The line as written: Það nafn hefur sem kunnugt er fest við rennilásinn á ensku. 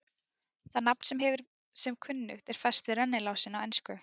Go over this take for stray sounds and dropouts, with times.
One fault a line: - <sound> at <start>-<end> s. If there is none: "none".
none